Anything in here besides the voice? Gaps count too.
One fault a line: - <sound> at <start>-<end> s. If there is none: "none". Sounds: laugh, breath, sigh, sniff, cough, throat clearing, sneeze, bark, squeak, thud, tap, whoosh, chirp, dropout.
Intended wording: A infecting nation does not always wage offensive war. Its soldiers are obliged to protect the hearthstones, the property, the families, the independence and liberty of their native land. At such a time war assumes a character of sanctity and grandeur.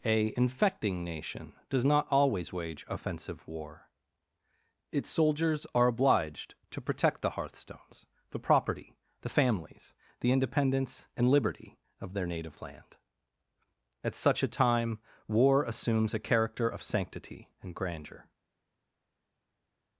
none